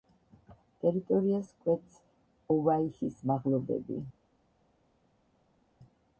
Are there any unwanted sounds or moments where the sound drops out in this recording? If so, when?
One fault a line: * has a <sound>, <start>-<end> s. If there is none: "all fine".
all fine